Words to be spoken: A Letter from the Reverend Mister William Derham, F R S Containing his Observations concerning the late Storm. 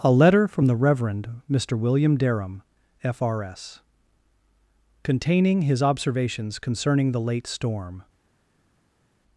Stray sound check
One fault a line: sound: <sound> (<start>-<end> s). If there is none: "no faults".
no faults